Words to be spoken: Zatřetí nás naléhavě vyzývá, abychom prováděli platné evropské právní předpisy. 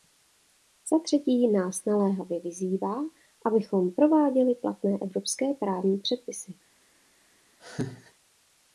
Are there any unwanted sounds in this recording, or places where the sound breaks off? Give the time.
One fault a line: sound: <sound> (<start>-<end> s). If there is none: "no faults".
sound: laugh (7.6-8.1 s)